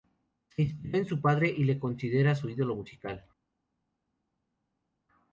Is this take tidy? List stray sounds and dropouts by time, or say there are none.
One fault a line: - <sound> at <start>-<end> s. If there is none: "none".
none